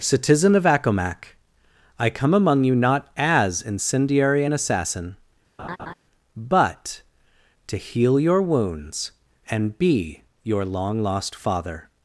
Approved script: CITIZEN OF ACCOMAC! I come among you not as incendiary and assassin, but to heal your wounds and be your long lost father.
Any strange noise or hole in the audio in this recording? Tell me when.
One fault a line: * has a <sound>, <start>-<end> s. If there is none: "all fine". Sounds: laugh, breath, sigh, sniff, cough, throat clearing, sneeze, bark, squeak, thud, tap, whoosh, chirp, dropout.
* has a laugh, 5.6-5.9 s